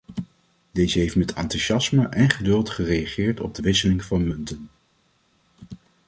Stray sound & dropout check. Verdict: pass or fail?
pass